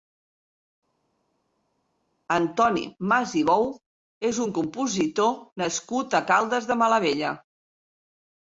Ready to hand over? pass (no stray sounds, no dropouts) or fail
pass